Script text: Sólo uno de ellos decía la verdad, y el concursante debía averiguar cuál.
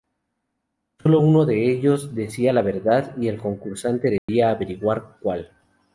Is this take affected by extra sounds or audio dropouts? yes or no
yes